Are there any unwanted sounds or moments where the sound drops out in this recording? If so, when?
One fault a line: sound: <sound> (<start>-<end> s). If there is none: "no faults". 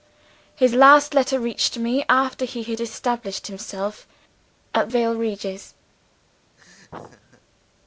sound: laugh (6.6-7.4 s)